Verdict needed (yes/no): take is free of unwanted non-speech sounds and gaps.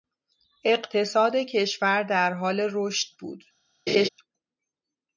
no